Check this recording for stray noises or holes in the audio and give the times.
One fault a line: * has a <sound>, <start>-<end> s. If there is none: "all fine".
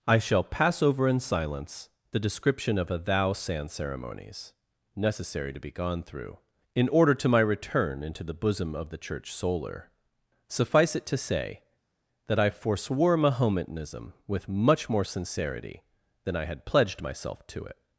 all fine